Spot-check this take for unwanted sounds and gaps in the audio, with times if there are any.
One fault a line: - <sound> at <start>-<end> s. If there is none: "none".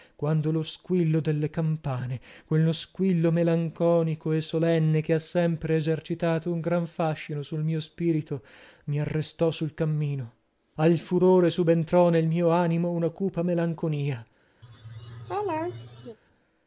- laugh at 14.6-16.2 s